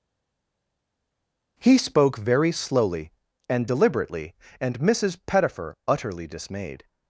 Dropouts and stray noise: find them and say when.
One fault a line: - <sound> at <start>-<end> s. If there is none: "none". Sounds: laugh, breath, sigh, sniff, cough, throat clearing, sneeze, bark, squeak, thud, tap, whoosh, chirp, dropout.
none